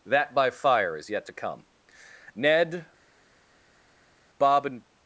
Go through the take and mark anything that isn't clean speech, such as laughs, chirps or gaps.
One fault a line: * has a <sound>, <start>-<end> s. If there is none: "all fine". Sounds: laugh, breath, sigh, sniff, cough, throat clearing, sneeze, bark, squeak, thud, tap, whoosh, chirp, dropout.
all fine